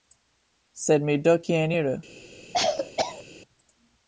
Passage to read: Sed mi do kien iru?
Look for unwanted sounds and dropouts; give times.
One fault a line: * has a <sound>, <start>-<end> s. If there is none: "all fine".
* has a cough, 2.5-3.2 s